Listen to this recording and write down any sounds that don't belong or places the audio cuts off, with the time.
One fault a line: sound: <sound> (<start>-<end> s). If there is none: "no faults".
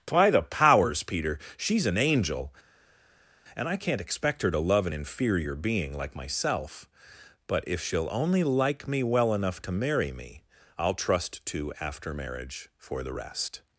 no faults